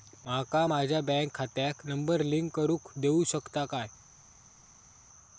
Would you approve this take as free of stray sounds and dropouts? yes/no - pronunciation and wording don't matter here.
yes